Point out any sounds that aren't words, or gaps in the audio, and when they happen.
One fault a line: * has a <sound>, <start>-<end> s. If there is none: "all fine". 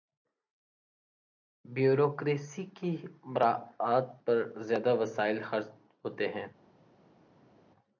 all fine